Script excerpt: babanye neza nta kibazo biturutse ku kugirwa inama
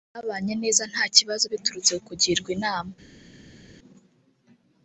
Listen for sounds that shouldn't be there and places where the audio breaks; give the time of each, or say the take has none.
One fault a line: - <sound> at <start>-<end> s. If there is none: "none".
none